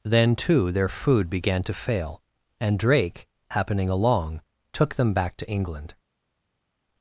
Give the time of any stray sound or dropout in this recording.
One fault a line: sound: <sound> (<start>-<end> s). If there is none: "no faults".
no faults